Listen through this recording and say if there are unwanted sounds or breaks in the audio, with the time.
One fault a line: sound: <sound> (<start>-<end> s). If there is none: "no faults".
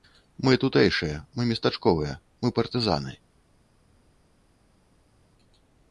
no faults